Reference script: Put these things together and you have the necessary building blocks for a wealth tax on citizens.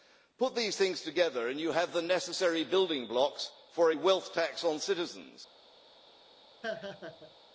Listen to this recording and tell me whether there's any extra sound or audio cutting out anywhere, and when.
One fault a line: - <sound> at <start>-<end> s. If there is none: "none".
- laugh at 6.6-7.3 s